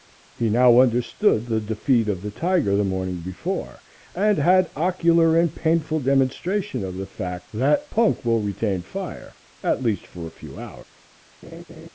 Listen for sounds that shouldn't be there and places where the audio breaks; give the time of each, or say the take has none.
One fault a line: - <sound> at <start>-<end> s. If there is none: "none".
- laugh at 11.4-11.9 s